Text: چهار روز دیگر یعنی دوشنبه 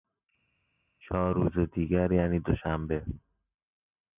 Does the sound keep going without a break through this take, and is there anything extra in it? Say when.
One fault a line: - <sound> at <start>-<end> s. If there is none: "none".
none